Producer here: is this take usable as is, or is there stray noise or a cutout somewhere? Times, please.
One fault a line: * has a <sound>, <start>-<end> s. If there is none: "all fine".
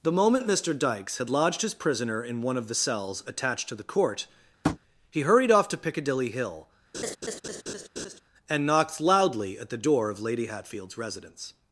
* has a tap, 4.6-4.8 s
* has a laugh, 6.9-8.2 s